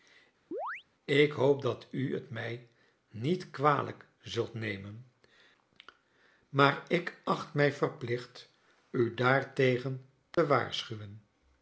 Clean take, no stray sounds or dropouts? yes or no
no